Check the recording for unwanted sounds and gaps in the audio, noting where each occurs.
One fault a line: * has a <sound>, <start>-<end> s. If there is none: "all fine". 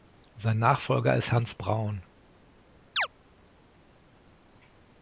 * has a chirp, 3.0-3.1 s